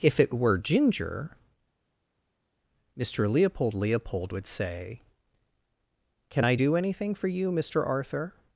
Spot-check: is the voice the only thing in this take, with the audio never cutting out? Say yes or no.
yes